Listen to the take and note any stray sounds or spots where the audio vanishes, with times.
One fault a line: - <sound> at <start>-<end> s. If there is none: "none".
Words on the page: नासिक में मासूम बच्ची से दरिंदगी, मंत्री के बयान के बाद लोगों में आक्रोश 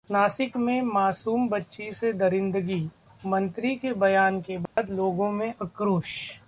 - dropout at 4.7-4.8 s